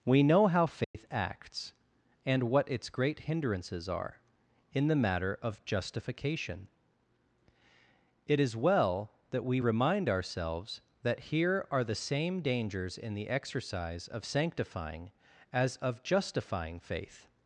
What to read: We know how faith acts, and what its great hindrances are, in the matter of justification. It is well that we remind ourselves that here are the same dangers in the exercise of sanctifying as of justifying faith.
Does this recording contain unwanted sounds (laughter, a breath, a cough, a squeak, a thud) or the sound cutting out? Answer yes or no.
yes